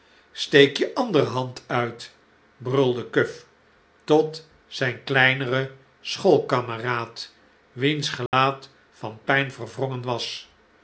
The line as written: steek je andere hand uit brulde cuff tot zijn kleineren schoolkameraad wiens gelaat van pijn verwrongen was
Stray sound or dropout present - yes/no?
yes